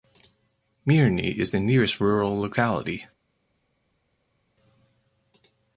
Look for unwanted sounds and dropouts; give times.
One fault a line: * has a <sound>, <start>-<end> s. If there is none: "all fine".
all fine